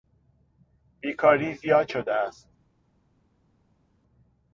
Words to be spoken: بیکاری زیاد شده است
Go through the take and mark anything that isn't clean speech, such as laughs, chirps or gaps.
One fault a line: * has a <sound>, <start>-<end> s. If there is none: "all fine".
all fine